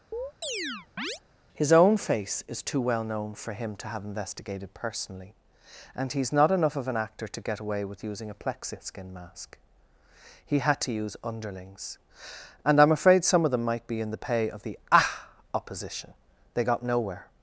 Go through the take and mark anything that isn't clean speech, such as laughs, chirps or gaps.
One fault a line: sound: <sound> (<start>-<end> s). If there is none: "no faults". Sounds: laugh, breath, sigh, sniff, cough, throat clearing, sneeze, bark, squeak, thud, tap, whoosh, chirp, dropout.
sound: chirp (0.1-1.2 s)